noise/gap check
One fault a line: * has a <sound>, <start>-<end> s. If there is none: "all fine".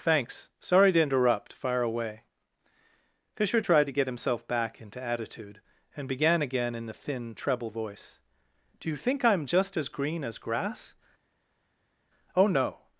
all fine